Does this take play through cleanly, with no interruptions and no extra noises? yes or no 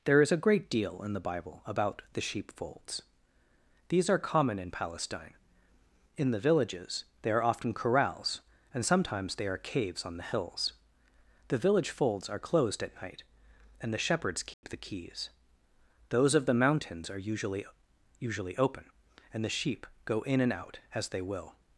no